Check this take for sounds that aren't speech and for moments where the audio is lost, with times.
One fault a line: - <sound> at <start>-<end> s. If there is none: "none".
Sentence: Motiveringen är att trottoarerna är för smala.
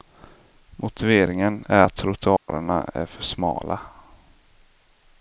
- dropout at 2.4-2.5 s